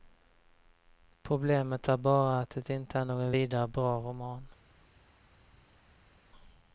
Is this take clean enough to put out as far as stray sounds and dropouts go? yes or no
yes